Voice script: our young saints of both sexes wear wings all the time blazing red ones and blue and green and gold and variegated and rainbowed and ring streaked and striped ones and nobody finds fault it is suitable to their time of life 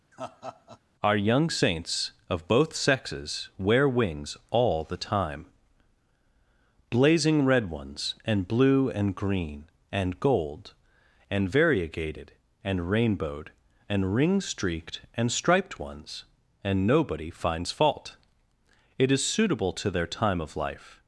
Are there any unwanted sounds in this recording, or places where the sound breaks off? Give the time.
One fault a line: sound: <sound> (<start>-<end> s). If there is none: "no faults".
sound: laugh (0.1-0.8 s)